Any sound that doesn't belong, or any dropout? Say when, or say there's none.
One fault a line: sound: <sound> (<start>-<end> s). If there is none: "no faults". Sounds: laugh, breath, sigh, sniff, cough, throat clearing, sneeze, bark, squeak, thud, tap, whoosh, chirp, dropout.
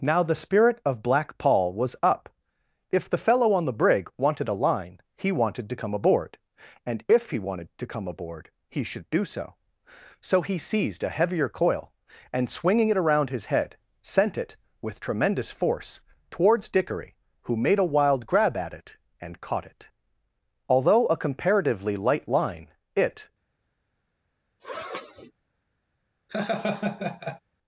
sound: sniff (24.6-25.3 s)
sound: laugh (26.3-27.4 s)